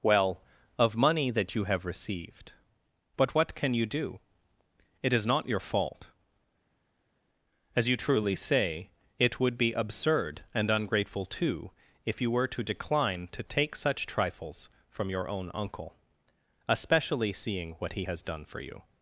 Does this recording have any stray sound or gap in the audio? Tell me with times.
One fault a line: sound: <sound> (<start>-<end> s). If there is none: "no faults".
no faults